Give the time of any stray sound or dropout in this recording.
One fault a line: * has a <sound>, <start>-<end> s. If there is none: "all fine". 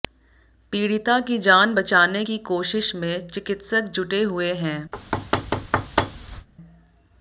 * has a thud, 4.9-6.5 s